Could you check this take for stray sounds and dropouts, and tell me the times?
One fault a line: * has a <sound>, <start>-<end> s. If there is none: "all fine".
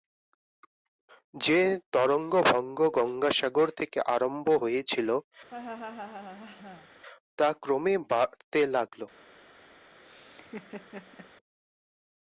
* has a laugh, 5.5-6.9 s
* has a laugh, 10.0-11.3 s